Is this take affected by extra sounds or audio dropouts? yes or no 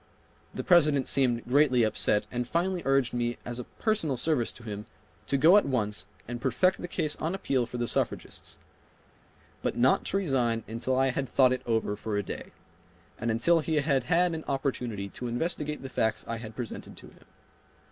no